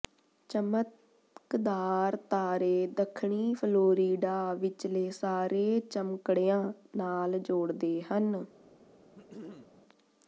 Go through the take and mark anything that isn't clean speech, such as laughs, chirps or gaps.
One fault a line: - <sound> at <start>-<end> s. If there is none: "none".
- throat clearing at 9.2-9.8 s